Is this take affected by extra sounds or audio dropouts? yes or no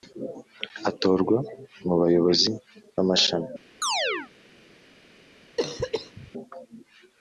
yes